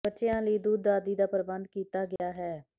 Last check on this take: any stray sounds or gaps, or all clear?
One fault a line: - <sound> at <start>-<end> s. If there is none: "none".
- dropout at 2.2-2.2 s